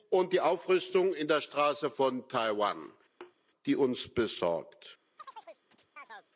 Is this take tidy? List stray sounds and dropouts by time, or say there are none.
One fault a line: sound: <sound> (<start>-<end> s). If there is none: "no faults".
sound: thud (3.2-3.4 s)
sound: chirp (5.2-6.3 s)